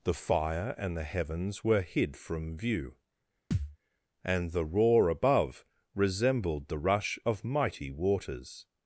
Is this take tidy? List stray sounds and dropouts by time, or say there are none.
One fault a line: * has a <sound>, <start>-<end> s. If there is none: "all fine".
* has a thud, 3.5-3.8 s